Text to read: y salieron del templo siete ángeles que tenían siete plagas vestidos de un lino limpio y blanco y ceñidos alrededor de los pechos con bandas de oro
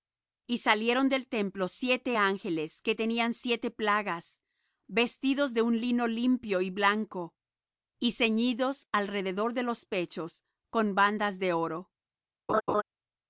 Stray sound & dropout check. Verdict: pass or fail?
fail